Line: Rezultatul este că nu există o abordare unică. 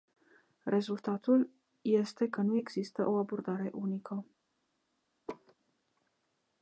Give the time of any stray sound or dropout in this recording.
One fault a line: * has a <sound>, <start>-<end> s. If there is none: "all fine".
* has a laugh, 5.3-5.5 s